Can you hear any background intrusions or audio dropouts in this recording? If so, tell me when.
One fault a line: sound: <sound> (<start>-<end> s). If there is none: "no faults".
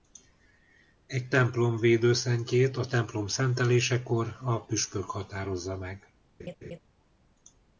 sound: laugh (6.4-6.8 s)